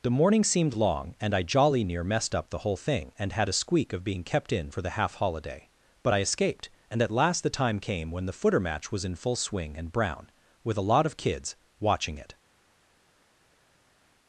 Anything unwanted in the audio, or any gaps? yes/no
no